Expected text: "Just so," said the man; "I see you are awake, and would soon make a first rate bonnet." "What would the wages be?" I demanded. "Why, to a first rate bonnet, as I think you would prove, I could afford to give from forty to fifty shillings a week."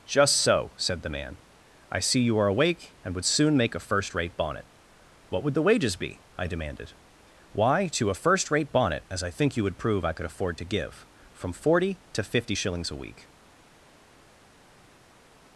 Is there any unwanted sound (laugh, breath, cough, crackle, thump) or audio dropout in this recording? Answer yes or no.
no